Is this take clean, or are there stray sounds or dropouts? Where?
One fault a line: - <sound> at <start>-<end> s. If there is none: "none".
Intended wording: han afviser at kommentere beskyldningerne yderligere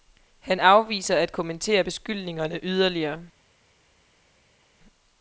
none